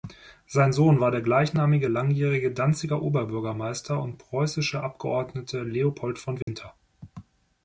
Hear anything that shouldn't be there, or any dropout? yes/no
yes